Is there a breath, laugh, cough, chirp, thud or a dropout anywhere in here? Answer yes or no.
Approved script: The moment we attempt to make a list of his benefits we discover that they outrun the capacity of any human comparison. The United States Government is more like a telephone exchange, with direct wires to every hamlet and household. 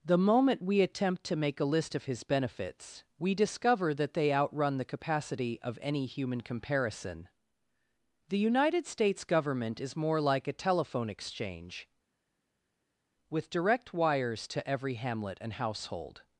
no